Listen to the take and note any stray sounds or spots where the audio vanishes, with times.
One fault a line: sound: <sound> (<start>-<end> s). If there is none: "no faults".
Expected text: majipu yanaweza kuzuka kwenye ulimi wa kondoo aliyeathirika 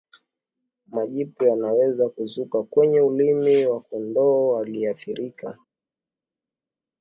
no faults